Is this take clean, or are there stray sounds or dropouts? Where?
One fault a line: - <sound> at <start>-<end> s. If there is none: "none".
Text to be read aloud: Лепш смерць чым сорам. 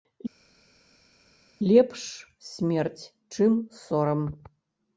none